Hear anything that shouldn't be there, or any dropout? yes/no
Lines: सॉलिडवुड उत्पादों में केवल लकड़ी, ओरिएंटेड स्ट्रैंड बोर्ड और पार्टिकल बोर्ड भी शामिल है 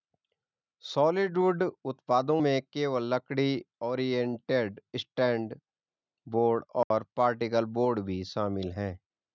yes